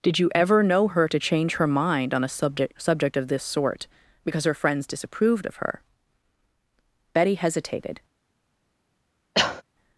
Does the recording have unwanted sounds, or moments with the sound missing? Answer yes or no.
yes